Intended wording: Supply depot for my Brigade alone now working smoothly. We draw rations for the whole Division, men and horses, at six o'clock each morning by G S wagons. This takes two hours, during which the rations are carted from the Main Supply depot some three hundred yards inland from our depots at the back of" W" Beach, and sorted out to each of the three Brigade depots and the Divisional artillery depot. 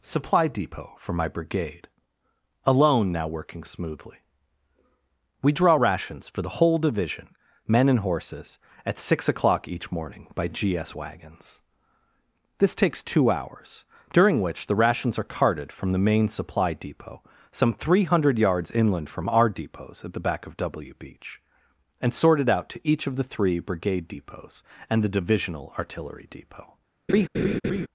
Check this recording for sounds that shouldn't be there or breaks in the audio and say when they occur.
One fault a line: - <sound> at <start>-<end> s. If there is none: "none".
- laugh at 27.1-27.9 s